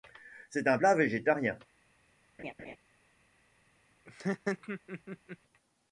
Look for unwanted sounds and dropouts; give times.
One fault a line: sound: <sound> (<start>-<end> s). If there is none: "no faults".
sound: laugh (2.4-2.8 s)
sound: laugh (4.1-5.4 s)